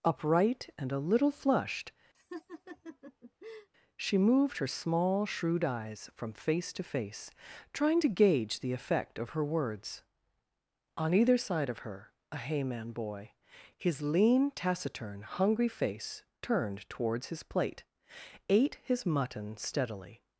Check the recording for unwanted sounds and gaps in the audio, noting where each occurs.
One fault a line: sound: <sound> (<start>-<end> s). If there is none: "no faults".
sound: laugh (2.1-3.7 s)